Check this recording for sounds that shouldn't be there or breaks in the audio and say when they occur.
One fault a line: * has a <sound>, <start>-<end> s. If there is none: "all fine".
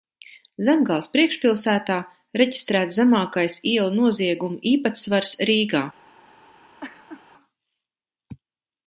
* has a laugh, 6.8-7.2 s